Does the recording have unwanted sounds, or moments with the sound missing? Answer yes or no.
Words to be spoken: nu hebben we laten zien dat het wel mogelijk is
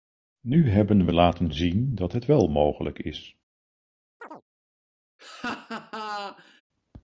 yes